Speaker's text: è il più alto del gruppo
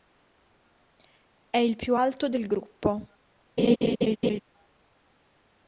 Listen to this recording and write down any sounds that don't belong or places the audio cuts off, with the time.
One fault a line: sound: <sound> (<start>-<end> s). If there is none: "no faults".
sound: laugh (3.6-4.4 s)